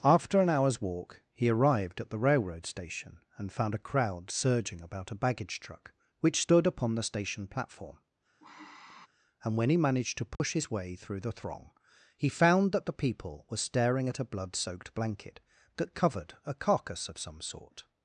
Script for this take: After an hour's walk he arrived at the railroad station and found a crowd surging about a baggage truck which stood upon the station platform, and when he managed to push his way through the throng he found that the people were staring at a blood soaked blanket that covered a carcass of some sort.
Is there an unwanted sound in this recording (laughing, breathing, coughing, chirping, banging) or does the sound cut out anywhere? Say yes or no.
yes